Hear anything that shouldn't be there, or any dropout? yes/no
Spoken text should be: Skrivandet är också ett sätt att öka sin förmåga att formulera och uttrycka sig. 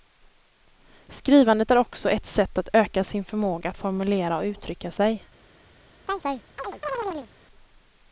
yes